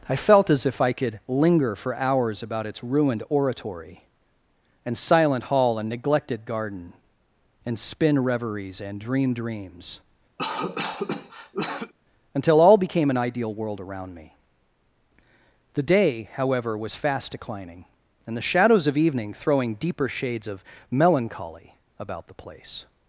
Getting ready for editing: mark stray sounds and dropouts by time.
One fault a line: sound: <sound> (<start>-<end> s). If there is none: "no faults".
sound: cough (10.4-11.9 s)